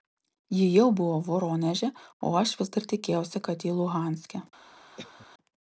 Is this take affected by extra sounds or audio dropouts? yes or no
yes